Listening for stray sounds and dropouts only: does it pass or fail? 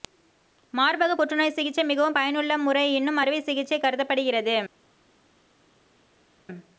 pass